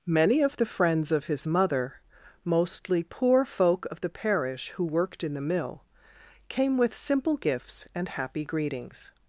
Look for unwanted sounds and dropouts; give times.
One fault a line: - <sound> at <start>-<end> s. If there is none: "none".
none